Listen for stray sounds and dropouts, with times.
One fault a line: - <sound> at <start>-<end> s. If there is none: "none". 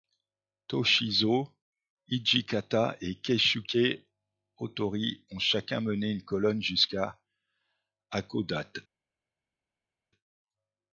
none